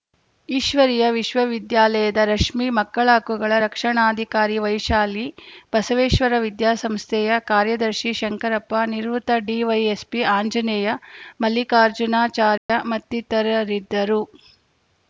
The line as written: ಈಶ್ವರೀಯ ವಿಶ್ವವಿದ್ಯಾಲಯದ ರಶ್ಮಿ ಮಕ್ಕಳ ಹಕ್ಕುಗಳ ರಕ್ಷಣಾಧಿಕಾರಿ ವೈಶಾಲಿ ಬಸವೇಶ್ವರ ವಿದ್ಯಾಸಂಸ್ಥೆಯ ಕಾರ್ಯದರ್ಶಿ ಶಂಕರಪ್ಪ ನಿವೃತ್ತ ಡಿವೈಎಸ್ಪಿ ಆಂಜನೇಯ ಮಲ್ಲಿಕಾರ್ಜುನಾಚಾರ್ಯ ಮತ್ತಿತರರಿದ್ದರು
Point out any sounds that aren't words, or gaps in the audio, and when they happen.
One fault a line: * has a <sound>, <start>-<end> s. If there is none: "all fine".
* has a dropout, 12.6-12.7 s